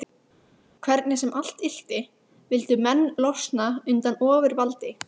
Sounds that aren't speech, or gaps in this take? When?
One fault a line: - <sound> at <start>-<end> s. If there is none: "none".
none